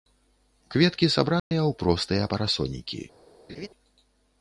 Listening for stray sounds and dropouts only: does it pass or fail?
fail